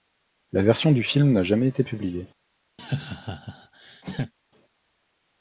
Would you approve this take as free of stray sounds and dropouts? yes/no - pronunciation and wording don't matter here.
no